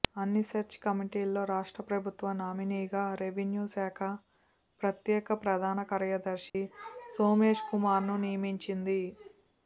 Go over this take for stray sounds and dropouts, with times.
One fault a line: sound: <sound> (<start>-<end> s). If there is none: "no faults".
sound: dropout (6.5-6.5 s)